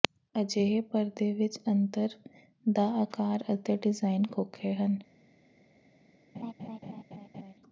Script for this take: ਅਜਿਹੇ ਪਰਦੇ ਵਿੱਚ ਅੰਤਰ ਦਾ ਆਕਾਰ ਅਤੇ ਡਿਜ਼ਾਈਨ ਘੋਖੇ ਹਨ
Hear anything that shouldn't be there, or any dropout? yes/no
yes